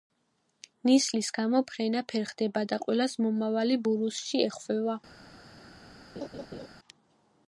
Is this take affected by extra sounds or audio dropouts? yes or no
yes